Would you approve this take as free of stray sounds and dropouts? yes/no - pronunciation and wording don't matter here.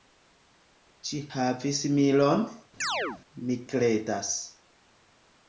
no